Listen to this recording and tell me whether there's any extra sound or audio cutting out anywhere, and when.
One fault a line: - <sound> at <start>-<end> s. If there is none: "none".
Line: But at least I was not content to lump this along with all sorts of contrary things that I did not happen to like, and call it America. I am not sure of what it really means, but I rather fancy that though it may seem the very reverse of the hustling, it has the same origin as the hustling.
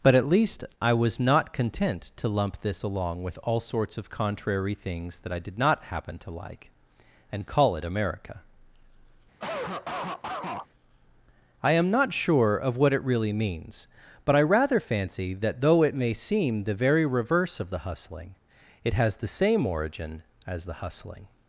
- cough at 9.4-10.7 s